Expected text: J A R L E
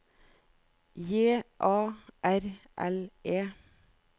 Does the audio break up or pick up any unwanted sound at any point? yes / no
no